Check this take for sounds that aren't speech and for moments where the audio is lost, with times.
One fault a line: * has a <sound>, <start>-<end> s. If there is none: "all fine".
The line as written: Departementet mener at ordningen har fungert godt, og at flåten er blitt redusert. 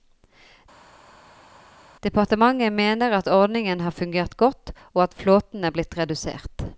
all fine